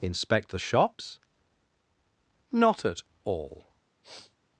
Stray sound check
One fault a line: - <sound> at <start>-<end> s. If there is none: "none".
- sniff at 4.0-4.4 s